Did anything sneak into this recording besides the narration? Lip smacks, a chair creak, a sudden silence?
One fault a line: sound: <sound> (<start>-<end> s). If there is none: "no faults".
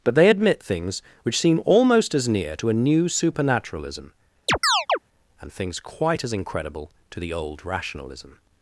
sound: chirp (4.5-5.0 s)